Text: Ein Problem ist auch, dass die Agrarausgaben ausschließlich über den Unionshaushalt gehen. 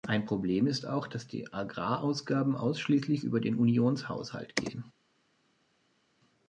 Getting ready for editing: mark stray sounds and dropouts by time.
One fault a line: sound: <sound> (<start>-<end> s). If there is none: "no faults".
no faults